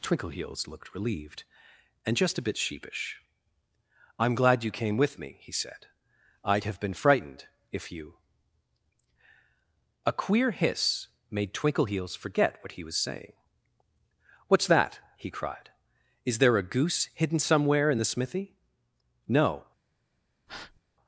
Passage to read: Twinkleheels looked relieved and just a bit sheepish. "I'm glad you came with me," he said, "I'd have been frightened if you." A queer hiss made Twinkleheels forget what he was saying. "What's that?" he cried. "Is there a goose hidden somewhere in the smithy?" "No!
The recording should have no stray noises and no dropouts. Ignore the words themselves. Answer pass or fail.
fail